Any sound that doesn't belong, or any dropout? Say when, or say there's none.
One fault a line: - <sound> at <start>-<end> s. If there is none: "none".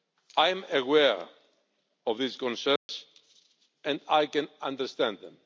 - dropout at 2.8-2.9 s